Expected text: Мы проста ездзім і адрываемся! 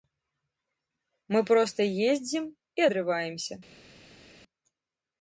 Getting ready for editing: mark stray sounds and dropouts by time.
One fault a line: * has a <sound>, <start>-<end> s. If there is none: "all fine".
all fine